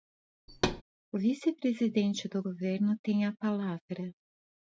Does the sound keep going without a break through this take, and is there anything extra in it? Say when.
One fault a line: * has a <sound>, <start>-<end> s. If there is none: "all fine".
* has a thud, 0.5-0.8 s